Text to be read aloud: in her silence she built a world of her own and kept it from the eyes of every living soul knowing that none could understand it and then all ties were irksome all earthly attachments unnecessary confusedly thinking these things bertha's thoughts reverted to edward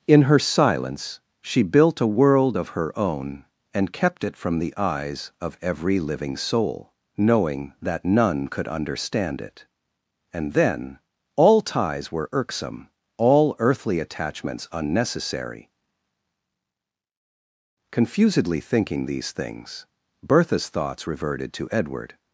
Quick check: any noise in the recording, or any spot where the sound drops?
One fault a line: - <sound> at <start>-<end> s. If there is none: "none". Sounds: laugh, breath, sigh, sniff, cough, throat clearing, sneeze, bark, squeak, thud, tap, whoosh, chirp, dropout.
none